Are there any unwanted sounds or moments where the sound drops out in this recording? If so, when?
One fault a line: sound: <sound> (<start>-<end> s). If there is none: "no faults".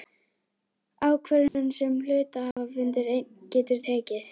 sound: dropout (1.5-1.5 s)
sound: dropout (2.5-2.6 s)